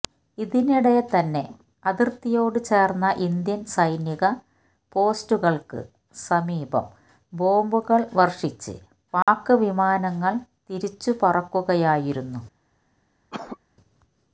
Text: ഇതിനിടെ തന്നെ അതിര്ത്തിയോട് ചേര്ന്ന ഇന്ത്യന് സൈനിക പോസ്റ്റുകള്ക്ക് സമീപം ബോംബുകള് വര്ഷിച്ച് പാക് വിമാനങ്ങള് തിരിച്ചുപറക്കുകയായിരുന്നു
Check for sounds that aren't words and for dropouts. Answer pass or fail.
fail